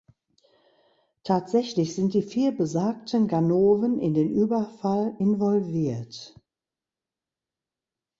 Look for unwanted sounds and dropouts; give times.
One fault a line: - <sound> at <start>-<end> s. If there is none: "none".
none